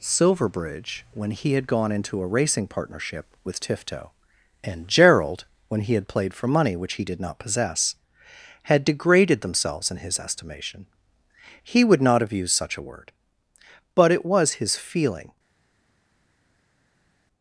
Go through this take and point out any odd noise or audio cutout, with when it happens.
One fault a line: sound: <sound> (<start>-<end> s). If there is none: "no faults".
no faults